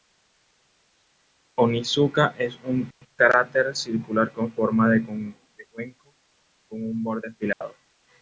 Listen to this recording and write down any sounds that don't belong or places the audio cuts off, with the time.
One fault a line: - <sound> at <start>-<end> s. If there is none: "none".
- dropout at 7.5-7.6 s